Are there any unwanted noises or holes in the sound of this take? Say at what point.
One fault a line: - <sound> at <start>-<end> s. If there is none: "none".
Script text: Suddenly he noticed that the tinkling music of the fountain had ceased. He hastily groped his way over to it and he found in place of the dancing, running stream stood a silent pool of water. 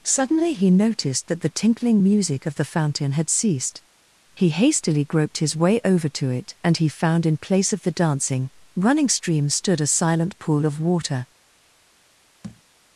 - thud at 12.4-12.6 s